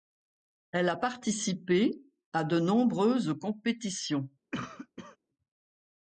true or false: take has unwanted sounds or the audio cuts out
true